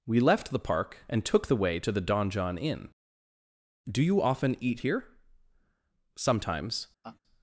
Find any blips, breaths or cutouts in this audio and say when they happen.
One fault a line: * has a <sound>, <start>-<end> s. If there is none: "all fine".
* has a laugh, 7.0-7.2 s